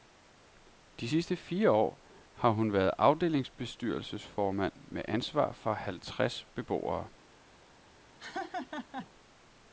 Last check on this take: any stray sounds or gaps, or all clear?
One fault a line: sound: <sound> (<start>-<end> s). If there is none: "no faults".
sound: laugh (8.2-9.1 s)